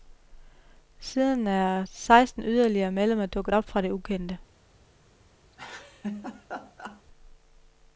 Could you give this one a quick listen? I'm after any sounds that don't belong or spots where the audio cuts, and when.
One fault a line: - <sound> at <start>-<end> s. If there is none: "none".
- laugh at 5.5-7.0 s